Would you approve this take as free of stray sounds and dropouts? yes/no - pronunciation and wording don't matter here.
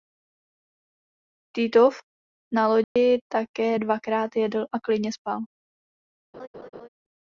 no